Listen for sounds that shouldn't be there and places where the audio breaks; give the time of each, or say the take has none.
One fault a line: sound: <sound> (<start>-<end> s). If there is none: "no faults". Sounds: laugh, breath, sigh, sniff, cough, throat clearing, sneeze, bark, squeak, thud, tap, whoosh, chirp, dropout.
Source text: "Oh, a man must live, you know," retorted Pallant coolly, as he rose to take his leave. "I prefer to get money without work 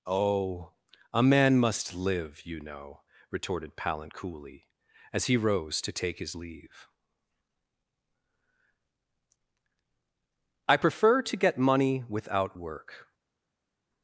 no faults